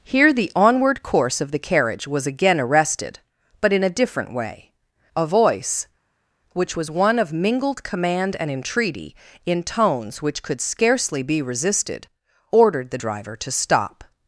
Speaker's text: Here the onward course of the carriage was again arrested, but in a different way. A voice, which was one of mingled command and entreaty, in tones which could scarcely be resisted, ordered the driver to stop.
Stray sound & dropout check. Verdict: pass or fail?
pass